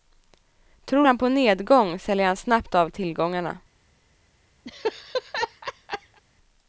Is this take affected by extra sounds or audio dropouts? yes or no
yes